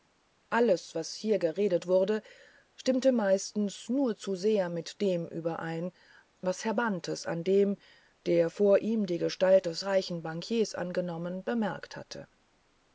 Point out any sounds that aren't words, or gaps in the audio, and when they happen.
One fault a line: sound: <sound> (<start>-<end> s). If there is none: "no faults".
no faults